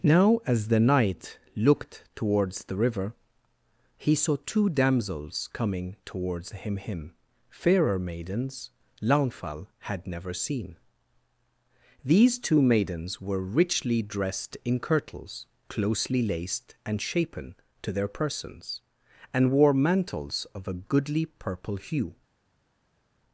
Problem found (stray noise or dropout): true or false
false